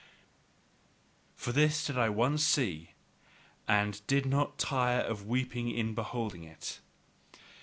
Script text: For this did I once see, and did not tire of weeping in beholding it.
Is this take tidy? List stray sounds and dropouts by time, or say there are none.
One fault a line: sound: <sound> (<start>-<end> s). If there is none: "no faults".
no faults